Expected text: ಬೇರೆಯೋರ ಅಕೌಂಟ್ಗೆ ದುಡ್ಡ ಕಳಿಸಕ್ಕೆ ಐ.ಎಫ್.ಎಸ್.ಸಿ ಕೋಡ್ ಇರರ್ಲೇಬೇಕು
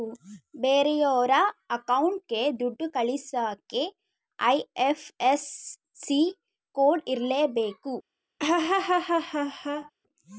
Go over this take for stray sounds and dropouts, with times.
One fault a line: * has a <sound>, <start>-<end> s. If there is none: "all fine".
* has a laugh, 8.4-9.9 s